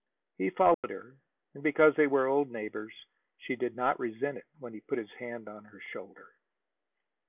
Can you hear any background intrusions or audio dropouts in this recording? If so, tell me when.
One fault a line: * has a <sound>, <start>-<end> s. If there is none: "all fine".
* has a dropout, 0.7-0.8 s